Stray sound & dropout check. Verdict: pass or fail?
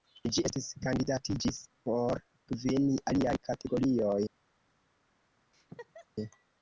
fail